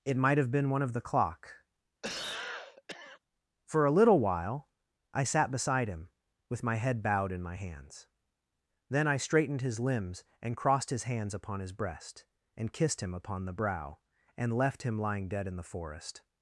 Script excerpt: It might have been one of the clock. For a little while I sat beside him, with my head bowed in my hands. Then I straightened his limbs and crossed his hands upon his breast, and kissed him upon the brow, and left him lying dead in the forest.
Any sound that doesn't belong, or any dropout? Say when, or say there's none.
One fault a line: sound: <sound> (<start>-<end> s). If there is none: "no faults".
sound: cough (2.0-3.2 s)